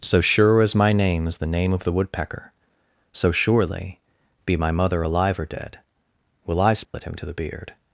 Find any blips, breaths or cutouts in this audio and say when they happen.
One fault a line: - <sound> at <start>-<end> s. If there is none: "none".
- dropout at 6.8-6.9 s